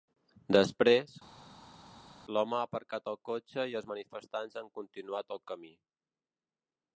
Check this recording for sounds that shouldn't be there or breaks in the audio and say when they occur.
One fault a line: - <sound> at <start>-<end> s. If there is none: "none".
none